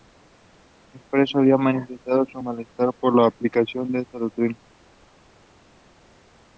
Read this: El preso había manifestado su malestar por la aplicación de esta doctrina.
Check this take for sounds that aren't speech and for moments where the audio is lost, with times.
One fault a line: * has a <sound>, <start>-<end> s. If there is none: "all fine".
all fine